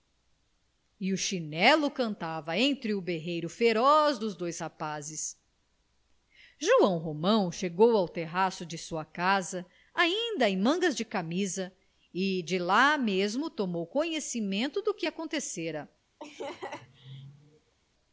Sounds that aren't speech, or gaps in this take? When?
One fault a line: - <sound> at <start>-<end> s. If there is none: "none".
- laugh at 16.2-17.7 s